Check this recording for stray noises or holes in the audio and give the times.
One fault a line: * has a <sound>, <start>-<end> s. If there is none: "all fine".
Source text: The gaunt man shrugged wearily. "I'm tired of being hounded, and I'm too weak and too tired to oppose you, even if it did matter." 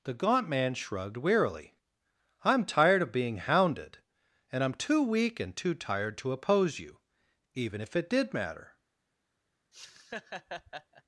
* has a laugh, 9.7-11.0 s